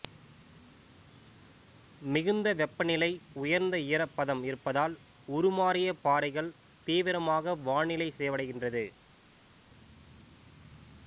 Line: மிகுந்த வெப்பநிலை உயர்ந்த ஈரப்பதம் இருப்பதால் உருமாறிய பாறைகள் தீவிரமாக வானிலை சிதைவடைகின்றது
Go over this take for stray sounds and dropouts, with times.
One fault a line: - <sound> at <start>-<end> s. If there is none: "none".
none